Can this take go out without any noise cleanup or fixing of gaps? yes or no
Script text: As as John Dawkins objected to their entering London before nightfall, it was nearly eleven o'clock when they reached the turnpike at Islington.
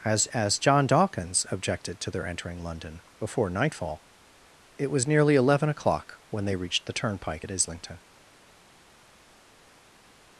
yes